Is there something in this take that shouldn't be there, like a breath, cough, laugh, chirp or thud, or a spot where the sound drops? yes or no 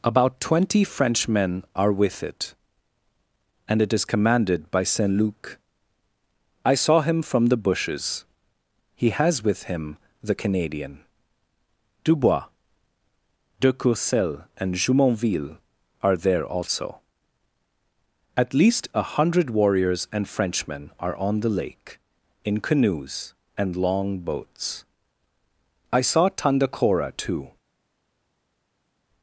no